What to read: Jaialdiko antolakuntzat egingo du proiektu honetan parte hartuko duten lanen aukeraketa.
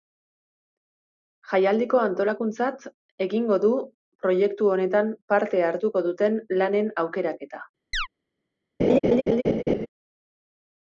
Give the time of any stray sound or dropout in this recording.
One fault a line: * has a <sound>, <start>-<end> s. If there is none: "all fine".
* has a chirp, 7.9-8.1 s
* has a laugh, 8.8-9.9 s